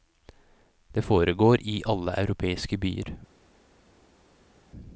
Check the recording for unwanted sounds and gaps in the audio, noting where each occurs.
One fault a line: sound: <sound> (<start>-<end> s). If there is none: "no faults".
no faults